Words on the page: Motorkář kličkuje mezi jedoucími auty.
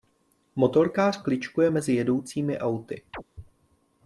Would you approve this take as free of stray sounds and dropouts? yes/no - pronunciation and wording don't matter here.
no